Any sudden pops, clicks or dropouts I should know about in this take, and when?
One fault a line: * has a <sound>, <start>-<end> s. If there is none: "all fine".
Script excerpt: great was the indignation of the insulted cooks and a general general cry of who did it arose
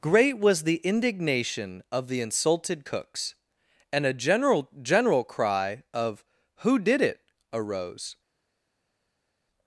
all fine